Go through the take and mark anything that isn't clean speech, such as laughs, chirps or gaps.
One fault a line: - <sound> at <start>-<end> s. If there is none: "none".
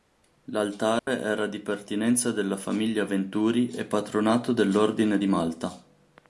- dropout at 1.0-1.1 s